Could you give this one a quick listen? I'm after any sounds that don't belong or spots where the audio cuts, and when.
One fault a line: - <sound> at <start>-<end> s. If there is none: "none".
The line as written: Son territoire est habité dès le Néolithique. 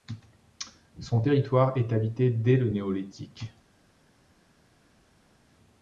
none